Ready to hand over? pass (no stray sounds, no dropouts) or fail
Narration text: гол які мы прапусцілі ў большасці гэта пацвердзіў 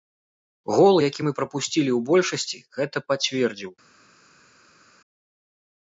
pass